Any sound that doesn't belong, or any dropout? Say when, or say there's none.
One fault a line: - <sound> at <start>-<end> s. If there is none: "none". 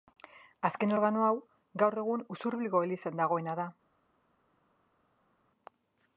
none